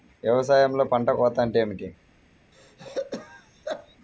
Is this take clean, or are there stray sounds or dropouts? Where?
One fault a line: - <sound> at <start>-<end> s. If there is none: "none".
- throat clearing at 2.5-4.0 s